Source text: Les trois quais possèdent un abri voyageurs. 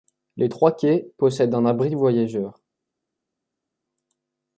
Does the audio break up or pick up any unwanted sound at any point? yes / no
no